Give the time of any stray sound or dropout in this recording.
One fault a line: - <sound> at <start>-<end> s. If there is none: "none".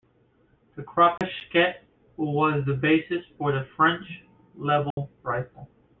- dropout at 1.2-1.2 s
- dropout at 4.9-5.0 s